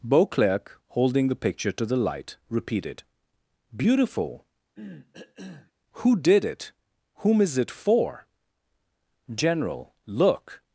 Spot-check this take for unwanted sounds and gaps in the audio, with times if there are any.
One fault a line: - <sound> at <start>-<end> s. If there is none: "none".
- cough at 4.8-5.7 s